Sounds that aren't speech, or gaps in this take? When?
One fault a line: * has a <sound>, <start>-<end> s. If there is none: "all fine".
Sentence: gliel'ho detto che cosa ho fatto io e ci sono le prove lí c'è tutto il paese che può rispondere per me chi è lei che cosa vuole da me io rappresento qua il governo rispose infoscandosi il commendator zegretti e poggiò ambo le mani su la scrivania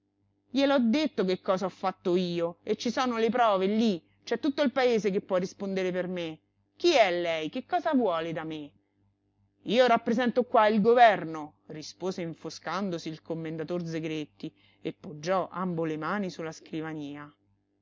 all fine